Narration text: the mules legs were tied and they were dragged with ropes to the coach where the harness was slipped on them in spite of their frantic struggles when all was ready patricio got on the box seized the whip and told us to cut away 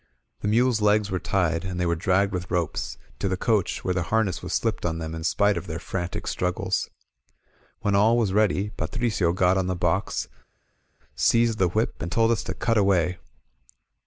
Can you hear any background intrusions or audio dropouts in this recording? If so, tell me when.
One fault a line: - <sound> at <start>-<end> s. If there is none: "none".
none